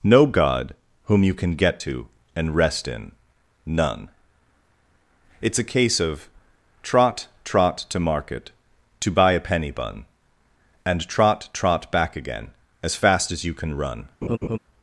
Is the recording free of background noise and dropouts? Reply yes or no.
no